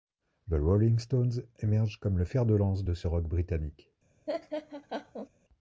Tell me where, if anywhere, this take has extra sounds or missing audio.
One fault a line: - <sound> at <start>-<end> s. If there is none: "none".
- laugh at 4.3-5.3 s